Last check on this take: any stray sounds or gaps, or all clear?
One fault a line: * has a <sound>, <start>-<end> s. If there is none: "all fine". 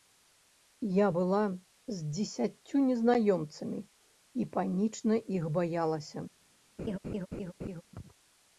* has a laugh, 6.8-7.8 s